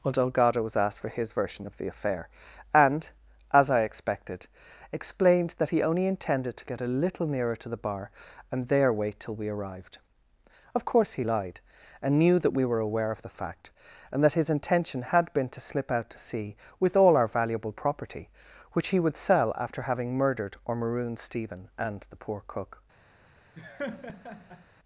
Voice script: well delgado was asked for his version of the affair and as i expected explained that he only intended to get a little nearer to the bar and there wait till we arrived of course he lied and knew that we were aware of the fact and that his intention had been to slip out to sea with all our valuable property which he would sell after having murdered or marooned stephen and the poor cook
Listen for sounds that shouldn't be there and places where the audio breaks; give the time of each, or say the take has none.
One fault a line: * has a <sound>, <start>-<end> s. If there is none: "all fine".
* has a laugh, 23.6-24.6 s